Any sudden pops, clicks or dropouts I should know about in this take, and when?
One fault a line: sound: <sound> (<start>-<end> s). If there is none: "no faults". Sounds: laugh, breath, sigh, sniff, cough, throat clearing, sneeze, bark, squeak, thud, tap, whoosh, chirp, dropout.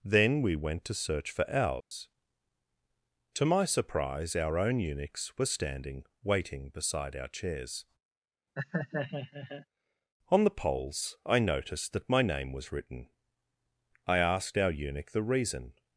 sound: dropout (1.8-1.9 s)
sound: laugh (8.6-9.7 s)